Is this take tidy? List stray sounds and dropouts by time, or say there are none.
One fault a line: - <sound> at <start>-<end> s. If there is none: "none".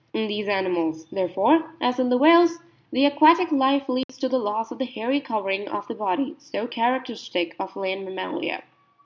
- dropout at 4.0-4.1 s